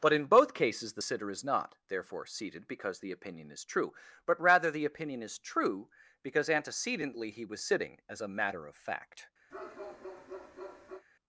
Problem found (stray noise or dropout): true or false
true